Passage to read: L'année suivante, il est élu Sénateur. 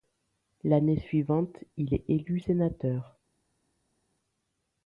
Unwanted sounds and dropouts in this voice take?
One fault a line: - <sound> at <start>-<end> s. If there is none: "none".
none